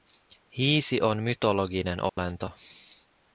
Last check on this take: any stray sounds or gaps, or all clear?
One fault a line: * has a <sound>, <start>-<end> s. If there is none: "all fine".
* has a dropout, 2.1-2.2 s